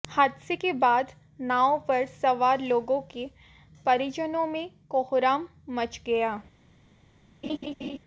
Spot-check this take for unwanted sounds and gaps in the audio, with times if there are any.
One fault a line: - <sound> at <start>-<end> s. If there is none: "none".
- laugh at 7.4-8.0 s